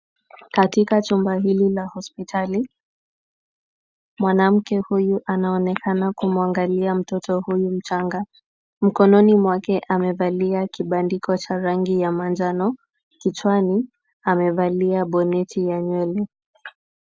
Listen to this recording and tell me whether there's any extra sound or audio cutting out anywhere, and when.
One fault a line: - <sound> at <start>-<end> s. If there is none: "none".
none